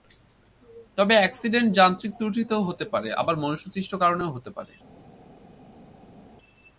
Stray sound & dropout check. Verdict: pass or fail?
pass